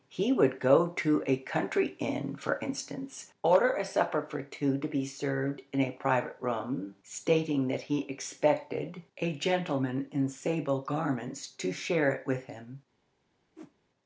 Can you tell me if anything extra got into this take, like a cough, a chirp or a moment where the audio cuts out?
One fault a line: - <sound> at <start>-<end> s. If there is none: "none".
- whoosh at 13.6-13.7 s